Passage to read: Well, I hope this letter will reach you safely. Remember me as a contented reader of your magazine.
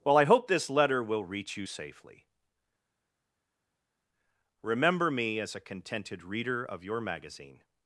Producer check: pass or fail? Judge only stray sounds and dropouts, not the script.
pass